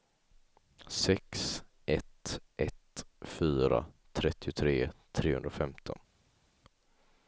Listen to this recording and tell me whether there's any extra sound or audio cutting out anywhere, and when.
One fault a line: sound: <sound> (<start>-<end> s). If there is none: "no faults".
no faults